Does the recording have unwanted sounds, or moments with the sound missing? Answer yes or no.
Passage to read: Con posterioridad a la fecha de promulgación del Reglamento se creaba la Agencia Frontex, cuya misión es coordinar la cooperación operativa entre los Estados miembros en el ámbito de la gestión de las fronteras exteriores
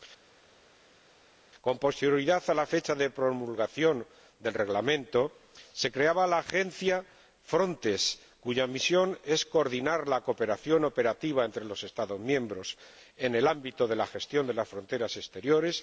no